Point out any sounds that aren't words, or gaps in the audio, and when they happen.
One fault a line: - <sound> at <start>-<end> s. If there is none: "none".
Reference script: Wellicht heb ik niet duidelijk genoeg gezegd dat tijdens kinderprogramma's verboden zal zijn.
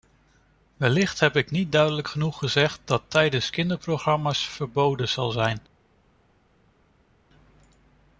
none